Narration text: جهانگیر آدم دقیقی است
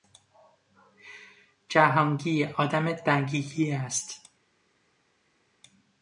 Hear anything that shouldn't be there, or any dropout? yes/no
no